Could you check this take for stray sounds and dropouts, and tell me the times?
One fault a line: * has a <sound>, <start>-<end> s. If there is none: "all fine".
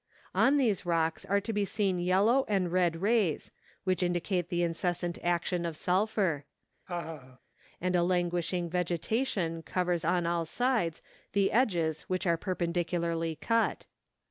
* has a laugh, 6.9-7.4 s